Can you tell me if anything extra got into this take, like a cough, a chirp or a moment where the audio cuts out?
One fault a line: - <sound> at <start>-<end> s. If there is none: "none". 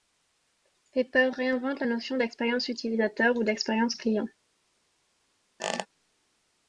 - squeak at 5.6-5.9 s